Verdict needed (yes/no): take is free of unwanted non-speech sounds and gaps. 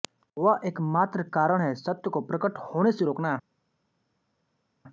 yes